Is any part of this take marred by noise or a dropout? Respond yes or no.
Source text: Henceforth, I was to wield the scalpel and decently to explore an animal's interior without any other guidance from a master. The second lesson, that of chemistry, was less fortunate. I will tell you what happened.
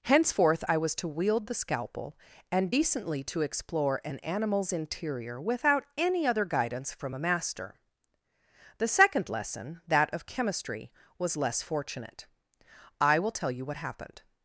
no